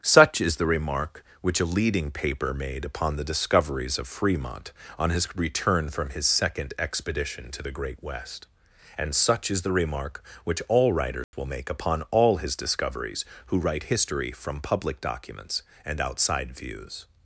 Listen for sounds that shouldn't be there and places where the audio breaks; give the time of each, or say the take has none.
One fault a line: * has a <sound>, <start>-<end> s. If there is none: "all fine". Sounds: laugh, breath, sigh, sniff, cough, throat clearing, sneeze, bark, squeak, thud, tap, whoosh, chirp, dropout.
* has a dropout, 11.2-11.3 s